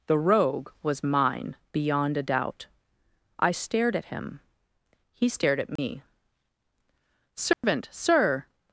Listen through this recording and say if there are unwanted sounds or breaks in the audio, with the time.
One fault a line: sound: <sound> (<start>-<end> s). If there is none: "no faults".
sound: dropout (5.8-5.8 s)
sound: dropout (7.5-7.6 s)